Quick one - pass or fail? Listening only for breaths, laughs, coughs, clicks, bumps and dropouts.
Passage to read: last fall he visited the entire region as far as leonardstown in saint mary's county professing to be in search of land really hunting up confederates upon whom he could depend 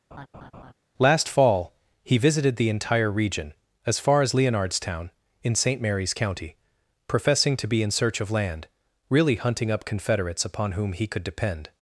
fail